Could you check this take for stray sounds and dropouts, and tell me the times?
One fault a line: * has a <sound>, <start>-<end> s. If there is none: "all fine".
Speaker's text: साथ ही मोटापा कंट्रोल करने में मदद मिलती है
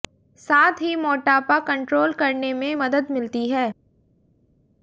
all fine